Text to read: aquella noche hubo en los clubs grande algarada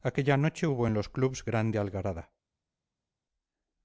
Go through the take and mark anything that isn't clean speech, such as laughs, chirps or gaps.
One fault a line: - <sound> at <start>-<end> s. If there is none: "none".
none